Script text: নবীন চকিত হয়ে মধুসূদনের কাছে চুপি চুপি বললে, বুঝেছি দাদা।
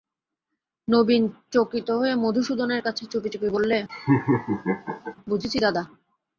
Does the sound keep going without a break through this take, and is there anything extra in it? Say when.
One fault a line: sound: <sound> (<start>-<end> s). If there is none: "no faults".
sound: laugh (3.9-5.2 s)